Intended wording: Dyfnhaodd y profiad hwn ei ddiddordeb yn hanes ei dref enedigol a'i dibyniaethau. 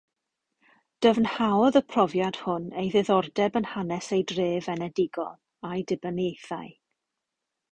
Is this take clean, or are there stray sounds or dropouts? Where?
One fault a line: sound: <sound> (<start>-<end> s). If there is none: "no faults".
no faults